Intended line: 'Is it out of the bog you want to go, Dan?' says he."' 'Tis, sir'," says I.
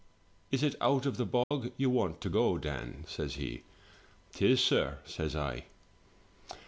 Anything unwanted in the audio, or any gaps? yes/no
yes